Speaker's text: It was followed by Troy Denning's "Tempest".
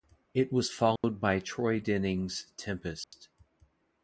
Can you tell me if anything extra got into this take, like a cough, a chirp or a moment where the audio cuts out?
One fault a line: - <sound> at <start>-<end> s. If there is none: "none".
- dropout at 1.0-1.0 s
- dropout at 3.0-3.1 s